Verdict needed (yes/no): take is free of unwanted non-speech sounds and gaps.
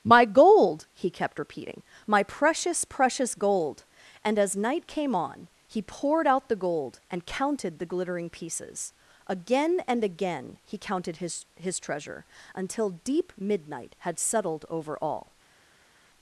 yes